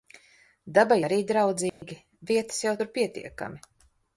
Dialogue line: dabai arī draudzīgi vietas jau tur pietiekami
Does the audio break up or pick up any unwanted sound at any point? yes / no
yes